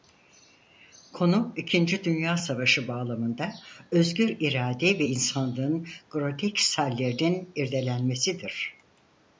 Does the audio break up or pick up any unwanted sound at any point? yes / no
no